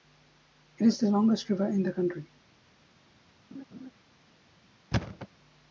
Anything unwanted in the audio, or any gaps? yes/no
yes